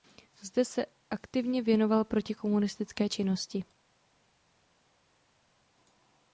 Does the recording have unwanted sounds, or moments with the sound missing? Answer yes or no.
no